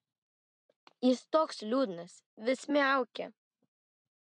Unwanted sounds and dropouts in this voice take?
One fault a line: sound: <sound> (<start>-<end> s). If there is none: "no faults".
no faults